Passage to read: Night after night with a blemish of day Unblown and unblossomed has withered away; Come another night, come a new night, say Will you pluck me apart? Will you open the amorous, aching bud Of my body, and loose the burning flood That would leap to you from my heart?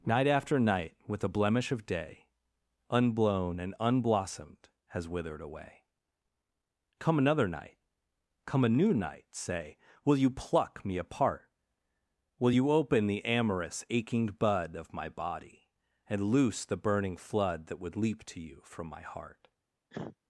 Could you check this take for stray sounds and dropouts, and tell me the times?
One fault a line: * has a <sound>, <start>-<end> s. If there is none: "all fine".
* has a cough, 19.9-20.2 s